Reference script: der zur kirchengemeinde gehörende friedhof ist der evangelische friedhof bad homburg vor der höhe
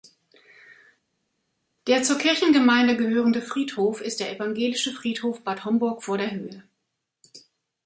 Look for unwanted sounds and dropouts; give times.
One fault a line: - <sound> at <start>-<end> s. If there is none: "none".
none